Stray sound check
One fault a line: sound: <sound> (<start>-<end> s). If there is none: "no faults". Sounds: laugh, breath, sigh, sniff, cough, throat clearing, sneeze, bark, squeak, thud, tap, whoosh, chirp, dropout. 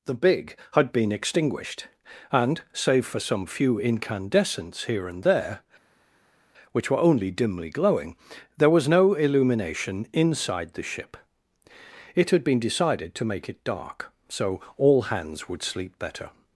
no faults